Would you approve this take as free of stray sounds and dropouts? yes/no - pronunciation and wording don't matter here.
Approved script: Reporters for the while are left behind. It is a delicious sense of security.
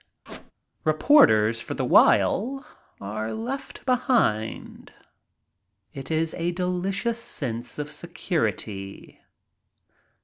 no